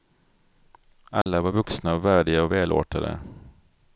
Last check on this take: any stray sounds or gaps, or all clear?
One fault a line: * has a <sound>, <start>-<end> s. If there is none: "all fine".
* has a dropout, 1.2-1.3 s